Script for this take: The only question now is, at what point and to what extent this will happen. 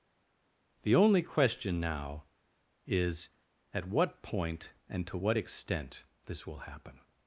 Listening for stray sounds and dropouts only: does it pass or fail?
pass